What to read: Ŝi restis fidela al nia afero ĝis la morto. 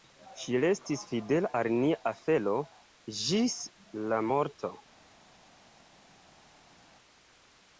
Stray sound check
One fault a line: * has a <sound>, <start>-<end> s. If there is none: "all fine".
all fine